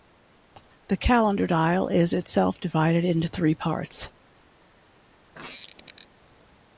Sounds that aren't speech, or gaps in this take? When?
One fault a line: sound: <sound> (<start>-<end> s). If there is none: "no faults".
sound: squeak (5.3-6.1 s)